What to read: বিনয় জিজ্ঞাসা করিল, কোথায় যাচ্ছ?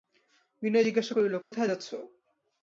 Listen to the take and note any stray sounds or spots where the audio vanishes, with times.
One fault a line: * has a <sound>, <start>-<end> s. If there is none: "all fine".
* has a dropout, 1.4-1.5 s